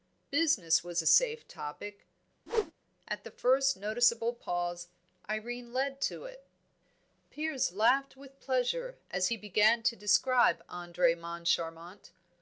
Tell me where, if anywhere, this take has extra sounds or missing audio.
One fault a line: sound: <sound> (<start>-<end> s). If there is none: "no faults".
sound: whoosh (2.5-2.7 s)